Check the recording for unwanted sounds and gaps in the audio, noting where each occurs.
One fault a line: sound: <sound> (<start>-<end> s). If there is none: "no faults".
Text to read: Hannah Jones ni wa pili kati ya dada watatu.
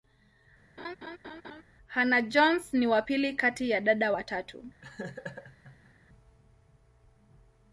sound: laugh (0.8-1.6 s)
sound: laugh (4.8-5.9 s)